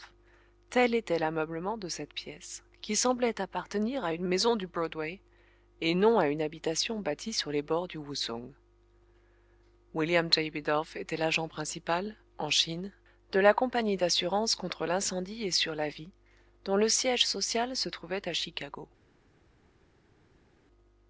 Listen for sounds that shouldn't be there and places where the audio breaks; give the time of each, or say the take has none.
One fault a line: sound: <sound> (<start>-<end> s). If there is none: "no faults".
no faults